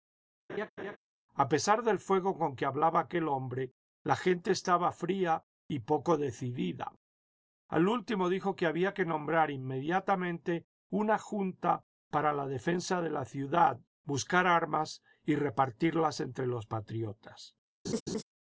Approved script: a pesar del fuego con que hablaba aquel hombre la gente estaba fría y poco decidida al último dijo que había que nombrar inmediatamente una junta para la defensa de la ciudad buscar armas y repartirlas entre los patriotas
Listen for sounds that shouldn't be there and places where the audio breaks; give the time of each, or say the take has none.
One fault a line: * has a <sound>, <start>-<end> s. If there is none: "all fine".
* has a laugh, 0.5-1.0 s
* has a laugh, 17.8-18.2 s